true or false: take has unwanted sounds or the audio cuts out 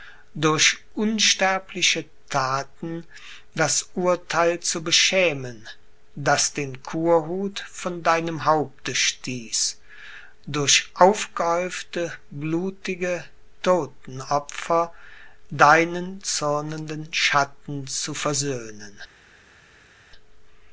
false